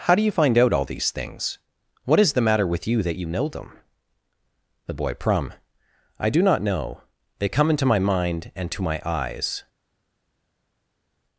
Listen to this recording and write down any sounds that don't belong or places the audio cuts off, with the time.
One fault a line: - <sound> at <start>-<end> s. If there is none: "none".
none